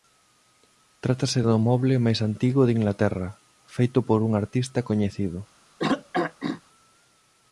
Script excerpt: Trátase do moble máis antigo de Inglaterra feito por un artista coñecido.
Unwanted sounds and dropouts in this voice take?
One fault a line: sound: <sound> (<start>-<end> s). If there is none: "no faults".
sound: throat clearing (5.8-6.6 s)